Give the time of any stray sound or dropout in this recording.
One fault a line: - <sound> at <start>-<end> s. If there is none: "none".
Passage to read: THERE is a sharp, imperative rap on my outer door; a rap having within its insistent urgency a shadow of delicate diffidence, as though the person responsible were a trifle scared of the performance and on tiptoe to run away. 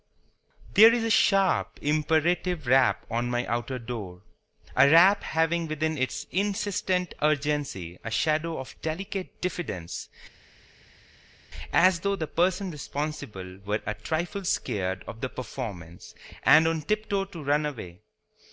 none